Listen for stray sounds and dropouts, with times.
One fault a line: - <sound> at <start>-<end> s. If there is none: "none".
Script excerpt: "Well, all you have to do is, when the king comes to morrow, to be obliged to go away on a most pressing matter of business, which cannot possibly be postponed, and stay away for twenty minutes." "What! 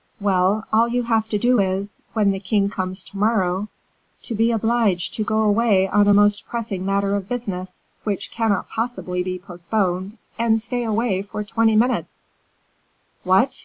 none